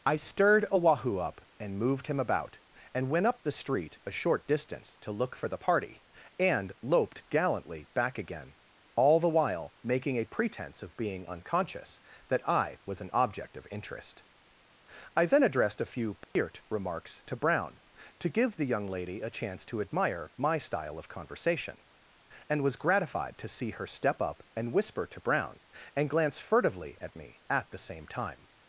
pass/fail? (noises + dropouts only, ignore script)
fail